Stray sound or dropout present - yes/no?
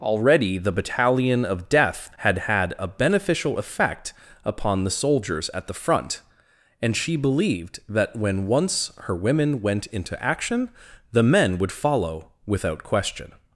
no